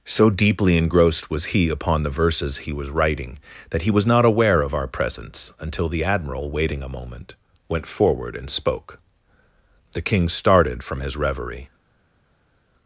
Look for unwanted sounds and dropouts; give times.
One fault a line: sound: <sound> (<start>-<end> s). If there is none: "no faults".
no faults